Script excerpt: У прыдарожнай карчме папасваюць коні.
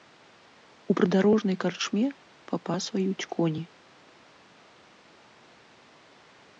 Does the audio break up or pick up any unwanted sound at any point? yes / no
no